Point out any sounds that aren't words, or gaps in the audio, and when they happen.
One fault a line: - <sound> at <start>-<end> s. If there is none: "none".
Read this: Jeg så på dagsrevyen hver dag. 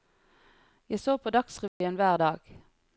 - dropout at 1.7-1.8 s